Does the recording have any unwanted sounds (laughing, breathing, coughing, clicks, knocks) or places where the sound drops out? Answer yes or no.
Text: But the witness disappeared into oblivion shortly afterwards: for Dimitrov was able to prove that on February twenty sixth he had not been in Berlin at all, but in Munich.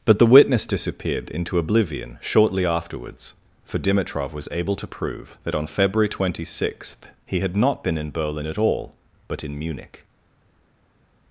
no